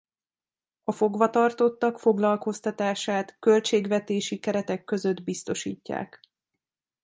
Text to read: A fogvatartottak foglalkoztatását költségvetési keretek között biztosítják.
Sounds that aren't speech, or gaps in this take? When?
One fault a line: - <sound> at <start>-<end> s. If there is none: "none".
none